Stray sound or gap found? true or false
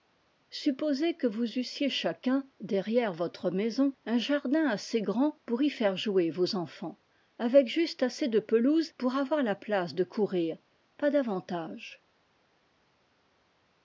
false